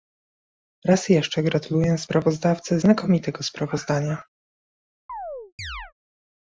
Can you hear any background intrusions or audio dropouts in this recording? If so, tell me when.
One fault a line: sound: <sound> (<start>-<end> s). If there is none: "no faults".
sound: chirp (5.1-5.9 s)